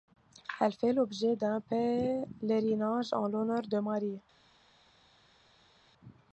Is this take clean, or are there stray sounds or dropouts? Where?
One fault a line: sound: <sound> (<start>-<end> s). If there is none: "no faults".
no faults